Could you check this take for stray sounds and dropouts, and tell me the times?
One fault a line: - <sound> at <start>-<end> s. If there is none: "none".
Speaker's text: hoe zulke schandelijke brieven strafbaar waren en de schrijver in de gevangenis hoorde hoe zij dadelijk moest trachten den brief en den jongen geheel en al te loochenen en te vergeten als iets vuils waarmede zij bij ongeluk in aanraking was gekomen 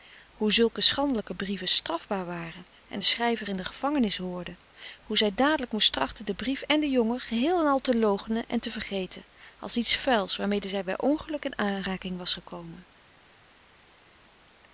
none